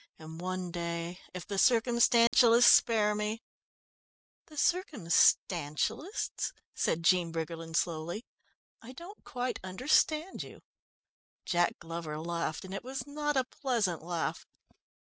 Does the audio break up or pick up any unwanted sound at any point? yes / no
yes